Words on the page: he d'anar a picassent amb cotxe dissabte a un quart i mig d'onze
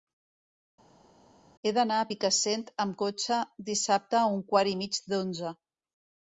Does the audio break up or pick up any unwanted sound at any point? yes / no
no